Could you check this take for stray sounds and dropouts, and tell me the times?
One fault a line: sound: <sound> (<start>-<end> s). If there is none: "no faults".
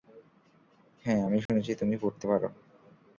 sound: dropout (1.5-1.5 s)